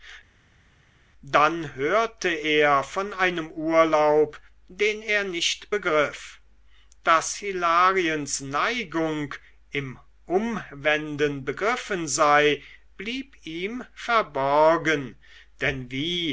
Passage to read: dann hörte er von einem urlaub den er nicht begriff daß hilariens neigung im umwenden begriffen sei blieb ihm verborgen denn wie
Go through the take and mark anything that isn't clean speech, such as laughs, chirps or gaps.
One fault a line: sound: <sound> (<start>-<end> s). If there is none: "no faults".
no faults